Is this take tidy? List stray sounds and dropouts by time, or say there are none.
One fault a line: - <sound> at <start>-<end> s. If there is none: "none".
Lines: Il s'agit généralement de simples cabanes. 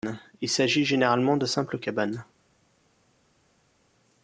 none